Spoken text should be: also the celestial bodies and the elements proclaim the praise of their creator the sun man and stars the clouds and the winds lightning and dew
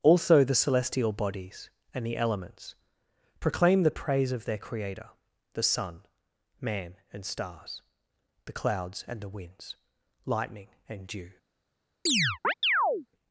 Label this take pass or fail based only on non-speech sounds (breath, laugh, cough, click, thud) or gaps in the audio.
fail